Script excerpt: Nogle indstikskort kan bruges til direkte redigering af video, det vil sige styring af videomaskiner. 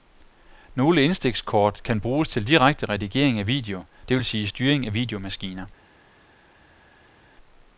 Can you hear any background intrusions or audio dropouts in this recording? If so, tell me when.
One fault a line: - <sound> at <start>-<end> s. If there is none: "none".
none